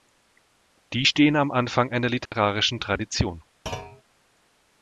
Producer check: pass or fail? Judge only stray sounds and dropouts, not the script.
fail